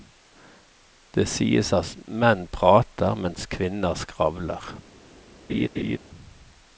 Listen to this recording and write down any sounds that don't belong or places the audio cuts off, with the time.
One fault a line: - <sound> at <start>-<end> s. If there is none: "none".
- laugh at 5.5-6.0 s